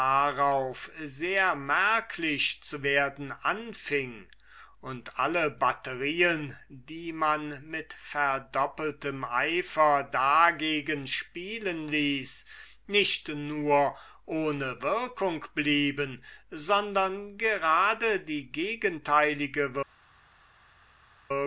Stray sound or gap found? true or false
false